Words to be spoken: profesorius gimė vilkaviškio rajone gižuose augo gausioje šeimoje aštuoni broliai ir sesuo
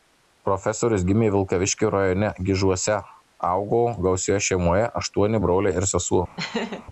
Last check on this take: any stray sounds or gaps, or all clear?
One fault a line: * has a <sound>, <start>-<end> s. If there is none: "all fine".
* has a laugh, 6.4-6.8 s